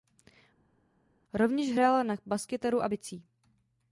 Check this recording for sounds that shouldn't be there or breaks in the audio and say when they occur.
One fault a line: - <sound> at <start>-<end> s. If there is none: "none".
none